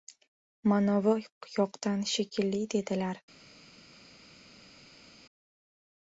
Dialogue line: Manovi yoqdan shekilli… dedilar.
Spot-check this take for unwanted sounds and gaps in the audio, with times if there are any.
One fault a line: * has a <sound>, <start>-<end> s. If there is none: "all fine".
all fine